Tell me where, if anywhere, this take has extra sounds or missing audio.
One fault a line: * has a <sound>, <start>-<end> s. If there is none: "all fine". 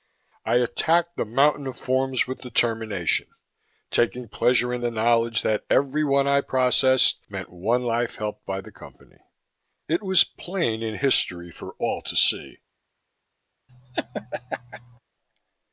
* has a laugh, 13.7-15.0 s